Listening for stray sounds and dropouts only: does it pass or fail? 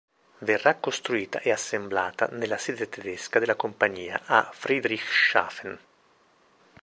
pass